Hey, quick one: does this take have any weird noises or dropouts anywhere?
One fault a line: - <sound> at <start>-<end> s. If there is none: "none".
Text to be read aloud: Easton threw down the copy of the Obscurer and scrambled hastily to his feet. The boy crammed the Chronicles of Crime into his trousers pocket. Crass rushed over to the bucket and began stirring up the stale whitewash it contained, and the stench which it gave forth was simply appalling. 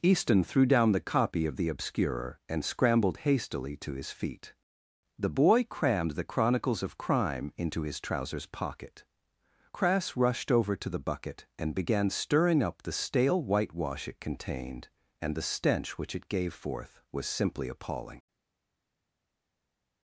none